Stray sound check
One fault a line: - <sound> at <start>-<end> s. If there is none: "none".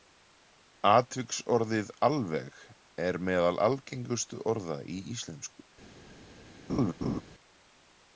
- laugh at 6.7-7.2 s